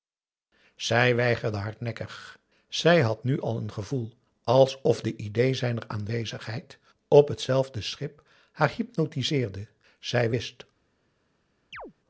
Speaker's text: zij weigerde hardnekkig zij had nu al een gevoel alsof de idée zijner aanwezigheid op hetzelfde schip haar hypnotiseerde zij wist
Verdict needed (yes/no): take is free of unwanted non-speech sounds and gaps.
no